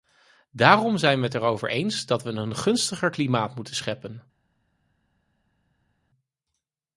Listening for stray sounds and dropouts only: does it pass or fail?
pass